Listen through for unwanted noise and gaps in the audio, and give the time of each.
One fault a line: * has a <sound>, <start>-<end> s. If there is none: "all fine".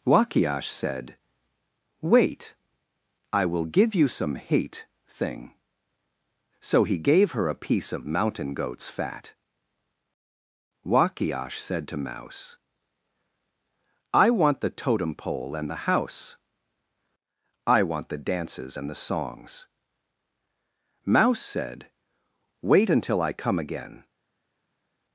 all fine